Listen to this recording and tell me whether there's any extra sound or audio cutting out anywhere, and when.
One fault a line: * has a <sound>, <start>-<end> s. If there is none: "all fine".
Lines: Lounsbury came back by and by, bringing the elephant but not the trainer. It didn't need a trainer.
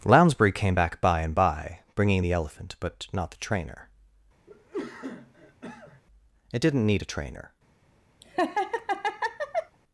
* has a cough, 4.5-6.0 s
* has a laugh, 8.2-9.8 s